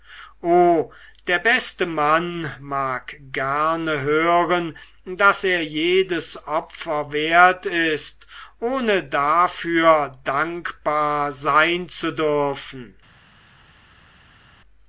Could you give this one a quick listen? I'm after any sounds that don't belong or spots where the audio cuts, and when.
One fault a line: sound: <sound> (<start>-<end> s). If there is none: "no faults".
no faults